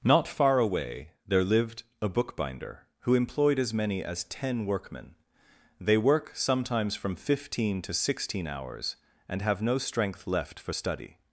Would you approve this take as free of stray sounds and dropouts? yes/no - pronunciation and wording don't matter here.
yes